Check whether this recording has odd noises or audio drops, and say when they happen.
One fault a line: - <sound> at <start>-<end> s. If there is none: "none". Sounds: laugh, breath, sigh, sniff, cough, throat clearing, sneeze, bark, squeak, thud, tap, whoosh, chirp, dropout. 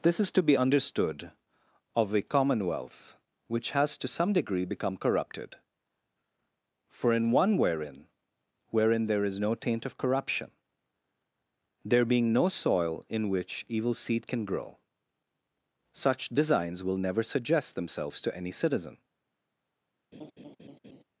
- laugh at 20.1-21.0 s